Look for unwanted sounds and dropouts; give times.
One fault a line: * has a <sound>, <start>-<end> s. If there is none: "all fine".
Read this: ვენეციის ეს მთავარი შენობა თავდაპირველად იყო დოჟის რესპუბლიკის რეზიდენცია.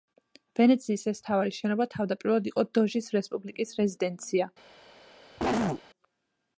* has a cough, 5.4-5.8 s